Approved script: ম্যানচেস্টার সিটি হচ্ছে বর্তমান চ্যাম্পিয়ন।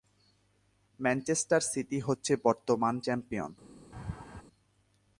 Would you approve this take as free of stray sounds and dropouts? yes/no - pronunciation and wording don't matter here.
no